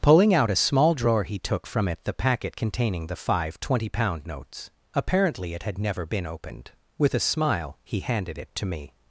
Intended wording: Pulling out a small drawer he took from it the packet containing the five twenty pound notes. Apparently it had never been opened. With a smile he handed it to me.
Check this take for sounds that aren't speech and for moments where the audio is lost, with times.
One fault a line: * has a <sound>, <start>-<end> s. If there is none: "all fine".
all fine